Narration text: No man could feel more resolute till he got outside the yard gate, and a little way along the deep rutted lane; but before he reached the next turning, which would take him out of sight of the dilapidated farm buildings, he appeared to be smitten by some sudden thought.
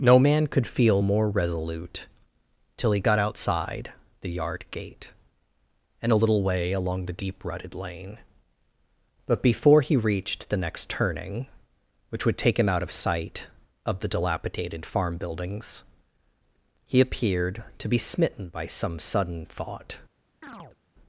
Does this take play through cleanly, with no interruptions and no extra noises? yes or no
no